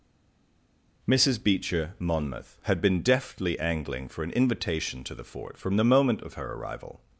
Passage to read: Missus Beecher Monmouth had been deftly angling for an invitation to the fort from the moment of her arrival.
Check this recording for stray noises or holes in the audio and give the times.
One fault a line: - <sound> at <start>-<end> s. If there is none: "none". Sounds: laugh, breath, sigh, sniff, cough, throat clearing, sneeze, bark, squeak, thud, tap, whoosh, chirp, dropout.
none